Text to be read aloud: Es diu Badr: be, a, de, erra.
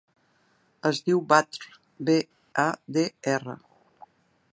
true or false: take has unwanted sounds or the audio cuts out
false